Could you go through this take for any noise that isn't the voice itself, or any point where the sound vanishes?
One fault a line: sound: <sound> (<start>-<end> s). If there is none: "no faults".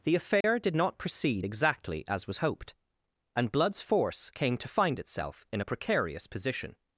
sound: dropout (0.4-0.4 s)